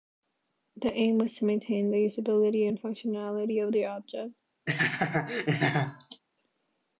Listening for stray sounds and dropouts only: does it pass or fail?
fail